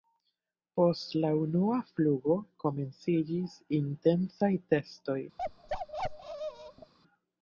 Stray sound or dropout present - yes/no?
yes